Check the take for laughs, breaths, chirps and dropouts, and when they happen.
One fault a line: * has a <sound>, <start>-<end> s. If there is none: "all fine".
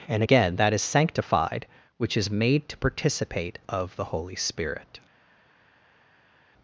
all fine